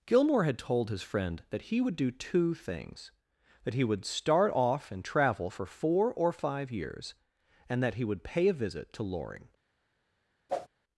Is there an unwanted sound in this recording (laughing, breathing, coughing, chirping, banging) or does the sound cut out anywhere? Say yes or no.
yes